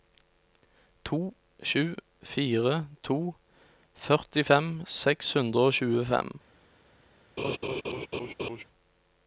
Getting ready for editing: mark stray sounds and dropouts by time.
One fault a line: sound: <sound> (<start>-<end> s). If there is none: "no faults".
sound: laugh (7.4-8.6 s)